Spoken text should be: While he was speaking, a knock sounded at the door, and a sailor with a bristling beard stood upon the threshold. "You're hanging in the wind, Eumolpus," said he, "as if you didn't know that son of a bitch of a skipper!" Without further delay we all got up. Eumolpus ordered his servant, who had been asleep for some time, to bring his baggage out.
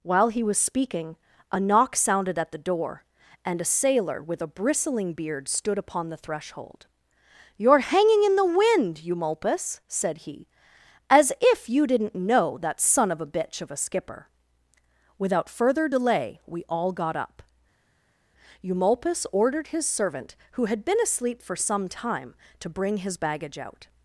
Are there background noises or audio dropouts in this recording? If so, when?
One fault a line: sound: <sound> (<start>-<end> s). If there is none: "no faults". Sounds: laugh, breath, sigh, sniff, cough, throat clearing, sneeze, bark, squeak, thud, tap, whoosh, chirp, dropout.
no faults